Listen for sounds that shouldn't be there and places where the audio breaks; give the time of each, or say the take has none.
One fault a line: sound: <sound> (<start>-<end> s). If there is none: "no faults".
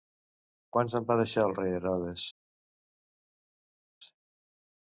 no faults